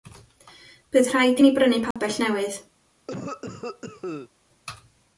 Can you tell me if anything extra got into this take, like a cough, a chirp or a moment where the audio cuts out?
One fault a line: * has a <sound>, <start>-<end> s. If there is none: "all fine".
* has a dropout, 1.9-2.0 s
* has a cough, 3.1-4.3 s